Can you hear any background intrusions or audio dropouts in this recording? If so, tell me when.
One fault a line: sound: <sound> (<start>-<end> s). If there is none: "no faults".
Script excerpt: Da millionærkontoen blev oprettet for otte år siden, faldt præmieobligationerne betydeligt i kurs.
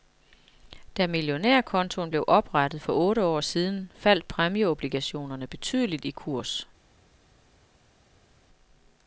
no faults